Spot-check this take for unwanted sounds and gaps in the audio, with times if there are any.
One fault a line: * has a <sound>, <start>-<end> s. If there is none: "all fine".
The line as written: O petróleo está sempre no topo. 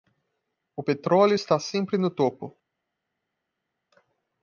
all fine